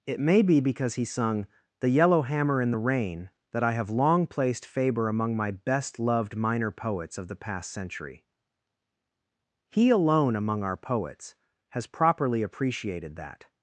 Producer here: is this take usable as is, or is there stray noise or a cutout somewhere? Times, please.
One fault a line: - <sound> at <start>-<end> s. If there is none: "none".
none